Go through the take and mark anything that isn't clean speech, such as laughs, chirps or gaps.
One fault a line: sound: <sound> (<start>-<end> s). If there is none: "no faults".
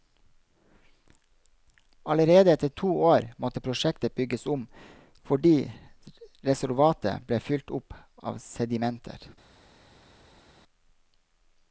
no faults